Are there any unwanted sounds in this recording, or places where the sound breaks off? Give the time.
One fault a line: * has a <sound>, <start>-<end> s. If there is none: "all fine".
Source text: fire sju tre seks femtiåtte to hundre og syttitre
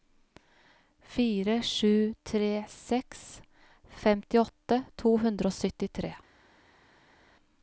all fine